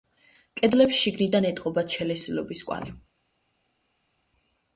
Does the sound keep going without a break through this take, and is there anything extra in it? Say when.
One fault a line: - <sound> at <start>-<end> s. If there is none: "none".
none